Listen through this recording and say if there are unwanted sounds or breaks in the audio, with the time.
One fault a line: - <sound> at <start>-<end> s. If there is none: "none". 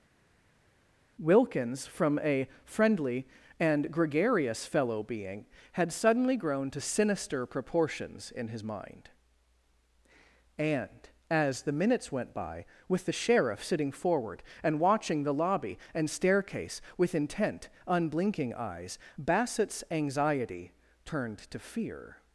none